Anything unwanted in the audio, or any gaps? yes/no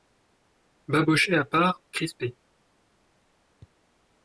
no